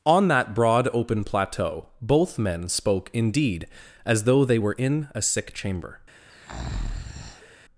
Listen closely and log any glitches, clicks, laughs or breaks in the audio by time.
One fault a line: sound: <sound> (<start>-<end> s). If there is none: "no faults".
sound: breath (6.3-7.6 s)